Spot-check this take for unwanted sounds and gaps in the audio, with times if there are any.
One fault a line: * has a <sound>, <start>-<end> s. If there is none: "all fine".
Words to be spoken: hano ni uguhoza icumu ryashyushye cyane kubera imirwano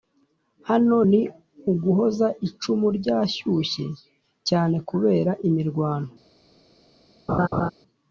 * has a laugh, 7.3-7.7 s